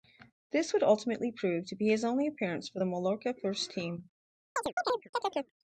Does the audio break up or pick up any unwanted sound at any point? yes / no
yes